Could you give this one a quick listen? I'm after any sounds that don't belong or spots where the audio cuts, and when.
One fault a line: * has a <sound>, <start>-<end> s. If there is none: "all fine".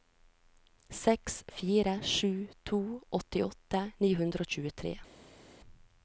all fine